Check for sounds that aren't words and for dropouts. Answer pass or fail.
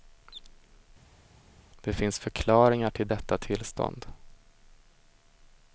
pass